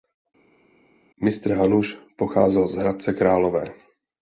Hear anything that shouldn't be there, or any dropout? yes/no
no